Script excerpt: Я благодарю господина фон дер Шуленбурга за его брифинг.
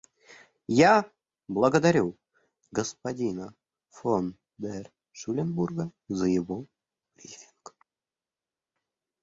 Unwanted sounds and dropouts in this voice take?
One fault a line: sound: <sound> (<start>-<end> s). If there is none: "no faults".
no faults